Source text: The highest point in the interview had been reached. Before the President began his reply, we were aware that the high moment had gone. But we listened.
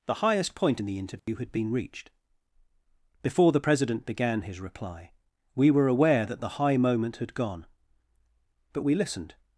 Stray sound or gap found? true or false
true